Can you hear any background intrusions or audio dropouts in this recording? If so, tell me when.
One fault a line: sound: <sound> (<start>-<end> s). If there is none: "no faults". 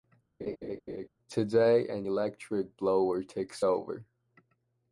sound: laugh (0.4-1.1 s)